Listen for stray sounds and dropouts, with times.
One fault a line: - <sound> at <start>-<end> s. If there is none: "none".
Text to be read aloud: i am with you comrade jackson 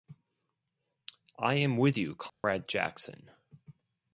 - dropout at 2.3-2.4 s